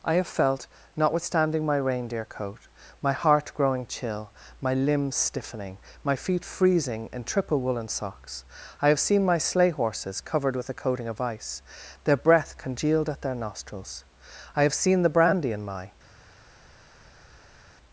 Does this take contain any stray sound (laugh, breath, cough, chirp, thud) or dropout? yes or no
no